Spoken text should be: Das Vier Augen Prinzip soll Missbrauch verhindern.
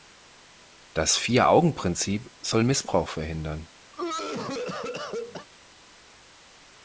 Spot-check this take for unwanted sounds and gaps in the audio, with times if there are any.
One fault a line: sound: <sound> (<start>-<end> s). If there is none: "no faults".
sound: cough (3.9-5.5 s)